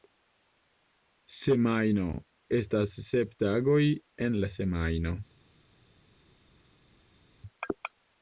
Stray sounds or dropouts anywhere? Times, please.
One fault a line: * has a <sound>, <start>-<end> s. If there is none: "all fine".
all fine